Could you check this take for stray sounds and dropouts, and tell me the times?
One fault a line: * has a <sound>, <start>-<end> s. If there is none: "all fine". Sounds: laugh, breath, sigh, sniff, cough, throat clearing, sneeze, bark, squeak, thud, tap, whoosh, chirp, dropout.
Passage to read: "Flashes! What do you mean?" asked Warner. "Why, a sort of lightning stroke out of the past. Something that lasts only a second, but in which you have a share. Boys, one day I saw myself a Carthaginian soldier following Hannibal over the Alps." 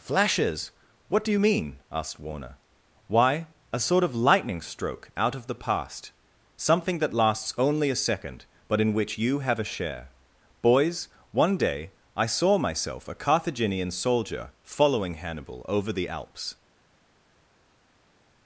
all fine